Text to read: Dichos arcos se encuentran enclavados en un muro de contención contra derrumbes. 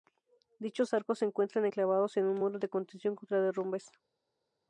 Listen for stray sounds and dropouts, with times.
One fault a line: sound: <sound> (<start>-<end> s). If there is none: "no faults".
no faults